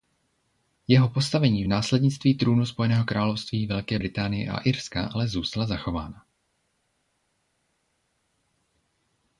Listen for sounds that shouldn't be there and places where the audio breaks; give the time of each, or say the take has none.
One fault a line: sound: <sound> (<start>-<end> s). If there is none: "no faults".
no faults